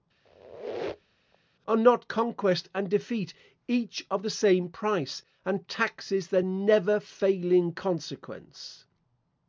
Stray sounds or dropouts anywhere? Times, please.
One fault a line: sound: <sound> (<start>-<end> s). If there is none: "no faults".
sound: squeak (0.2-1.4 s)